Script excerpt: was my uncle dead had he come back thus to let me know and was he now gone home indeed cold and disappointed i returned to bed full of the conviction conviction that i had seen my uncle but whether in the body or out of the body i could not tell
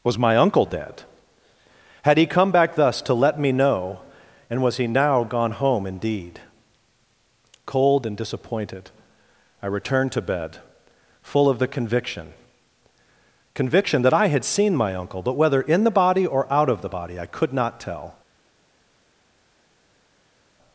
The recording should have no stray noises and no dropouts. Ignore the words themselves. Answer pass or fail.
pass